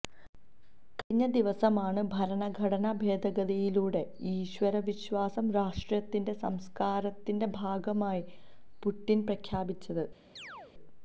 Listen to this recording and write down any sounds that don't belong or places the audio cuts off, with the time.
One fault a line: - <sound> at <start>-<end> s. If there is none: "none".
- chirp at 10.4-10.7 s